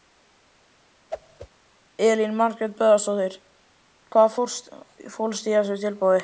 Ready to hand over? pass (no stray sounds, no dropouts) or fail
fail